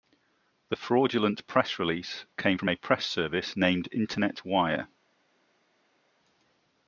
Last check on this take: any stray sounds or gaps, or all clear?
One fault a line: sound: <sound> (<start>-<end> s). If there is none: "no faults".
no faults